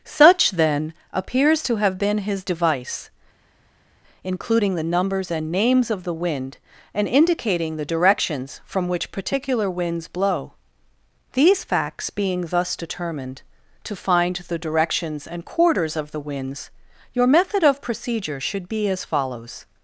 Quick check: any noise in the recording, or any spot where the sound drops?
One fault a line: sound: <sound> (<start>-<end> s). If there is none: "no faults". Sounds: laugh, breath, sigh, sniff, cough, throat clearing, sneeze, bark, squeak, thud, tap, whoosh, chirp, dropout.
no faults